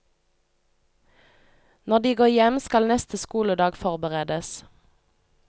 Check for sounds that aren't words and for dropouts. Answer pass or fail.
pass